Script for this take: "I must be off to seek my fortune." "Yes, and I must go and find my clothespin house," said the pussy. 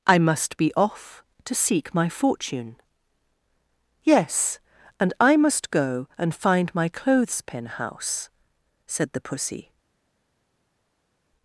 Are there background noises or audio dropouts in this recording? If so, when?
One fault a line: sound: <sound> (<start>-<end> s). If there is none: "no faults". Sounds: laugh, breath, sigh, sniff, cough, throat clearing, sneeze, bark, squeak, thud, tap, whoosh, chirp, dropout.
no faults